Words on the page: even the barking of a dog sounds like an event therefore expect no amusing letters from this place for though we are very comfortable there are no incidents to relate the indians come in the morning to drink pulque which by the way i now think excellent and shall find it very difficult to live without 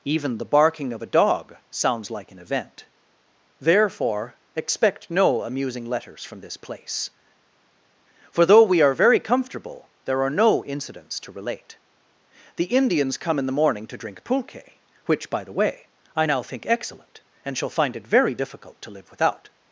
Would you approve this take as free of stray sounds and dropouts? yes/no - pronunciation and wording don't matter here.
yes